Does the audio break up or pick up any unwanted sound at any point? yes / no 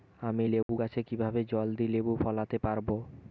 yes